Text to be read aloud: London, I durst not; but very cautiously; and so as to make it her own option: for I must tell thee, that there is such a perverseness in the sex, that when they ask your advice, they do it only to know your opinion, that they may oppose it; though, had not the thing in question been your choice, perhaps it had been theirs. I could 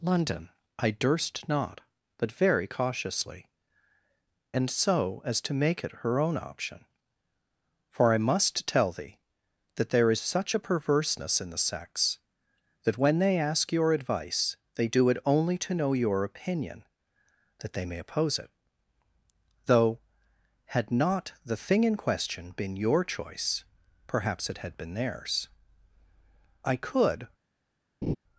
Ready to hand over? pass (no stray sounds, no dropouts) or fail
fail